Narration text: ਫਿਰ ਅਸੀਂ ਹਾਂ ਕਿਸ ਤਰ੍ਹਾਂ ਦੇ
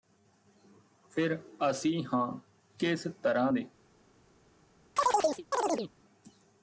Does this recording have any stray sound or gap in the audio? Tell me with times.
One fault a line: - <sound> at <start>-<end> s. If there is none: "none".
- chirp at 5.0-5.9 s